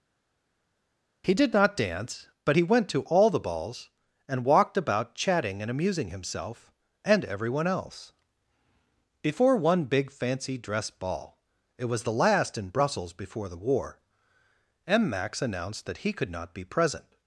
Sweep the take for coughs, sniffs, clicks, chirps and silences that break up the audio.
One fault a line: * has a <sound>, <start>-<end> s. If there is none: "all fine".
all fine